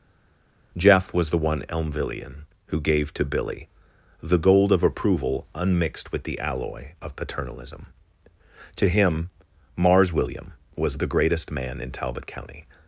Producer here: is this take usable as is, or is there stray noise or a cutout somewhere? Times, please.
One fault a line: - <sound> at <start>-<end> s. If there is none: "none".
none